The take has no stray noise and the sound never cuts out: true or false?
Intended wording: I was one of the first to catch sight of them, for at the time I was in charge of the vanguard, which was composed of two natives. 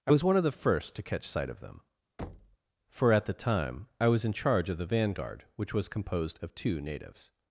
false